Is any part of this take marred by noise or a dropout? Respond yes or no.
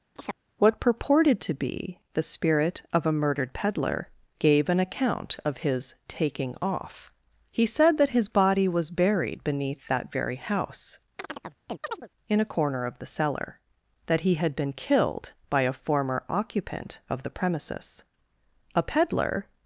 yes